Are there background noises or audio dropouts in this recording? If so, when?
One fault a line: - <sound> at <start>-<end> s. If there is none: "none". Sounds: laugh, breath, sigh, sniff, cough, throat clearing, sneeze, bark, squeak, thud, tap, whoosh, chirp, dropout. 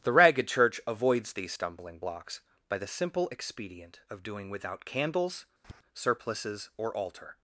- tap at 5.6-5.8 s